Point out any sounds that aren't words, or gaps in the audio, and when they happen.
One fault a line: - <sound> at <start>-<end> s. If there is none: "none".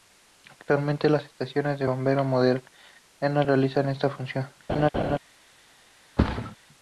- laugh at 4.7-5.2 s
- thud at 6.2-6.6 s